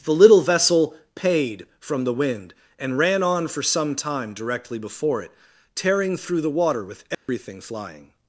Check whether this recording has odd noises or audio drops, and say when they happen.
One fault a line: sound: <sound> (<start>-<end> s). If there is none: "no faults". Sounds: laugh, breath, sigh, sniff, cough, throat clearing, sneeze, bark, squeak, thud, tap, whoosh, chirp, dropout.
sound: dropout (7.1-7.3 s)